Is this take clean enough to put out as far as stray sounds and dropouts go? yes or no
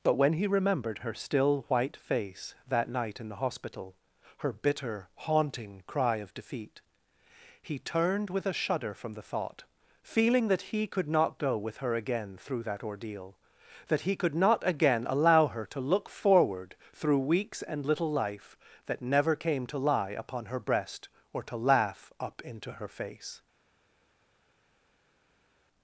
yes